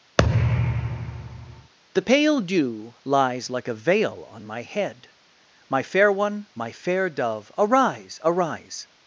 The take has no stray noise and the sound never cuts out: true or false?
false